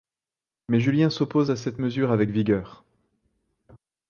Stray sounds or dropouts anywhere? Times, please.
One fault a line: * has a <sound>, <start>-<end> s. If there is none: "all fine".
all fine